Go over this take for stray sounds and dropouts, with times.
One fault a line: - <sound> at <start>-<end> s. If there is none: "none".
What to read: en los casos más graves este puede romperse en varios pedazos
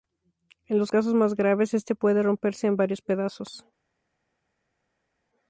none